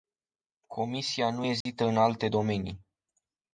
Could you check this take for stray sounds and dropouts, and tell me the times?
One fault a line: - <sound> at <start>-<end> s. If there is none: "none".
- dropout at 1.6-1.7 s